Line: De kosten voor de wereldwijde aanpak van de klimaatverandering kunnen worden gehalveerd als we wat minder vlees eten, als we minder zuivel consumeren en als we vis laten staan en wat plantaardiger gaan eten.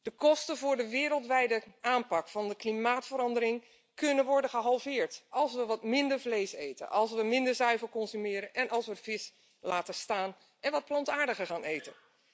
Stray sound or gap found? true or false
false